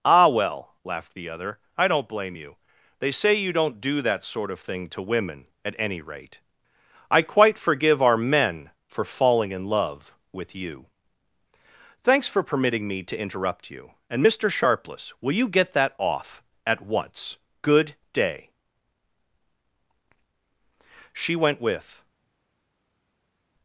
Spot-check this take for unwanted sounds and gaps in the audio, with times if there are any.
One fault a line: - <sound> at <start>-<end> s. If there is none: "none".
none